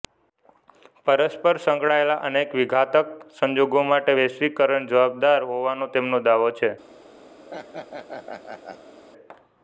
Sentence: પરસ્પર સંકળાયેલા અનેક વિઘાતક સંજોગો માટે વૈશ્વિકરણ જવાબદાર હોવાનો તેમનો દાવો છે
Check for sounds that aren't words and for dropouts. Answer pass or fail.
fail